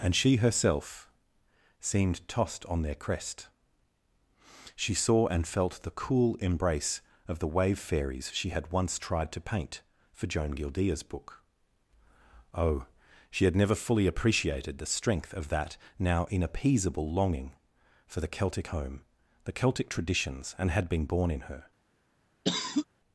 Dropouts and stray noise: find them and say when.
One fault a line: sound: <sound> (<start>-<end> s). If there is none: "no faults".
sound: cough (22.4-22.9 s)